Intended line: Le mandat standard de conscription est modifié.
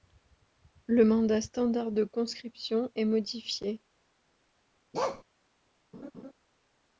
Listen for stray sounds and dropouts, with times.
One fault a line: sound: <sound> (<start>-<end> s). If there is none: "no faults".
sound: bark (4.9-5.2 s)
sound: laugh (5.9-6.3 s)